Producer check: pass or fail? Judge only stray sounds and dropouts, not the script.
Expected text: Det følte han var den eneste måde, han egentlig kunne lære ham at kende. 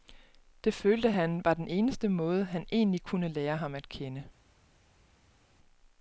pass